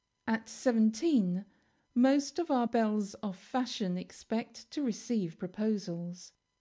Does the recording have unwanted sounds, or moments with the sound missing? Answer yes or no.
no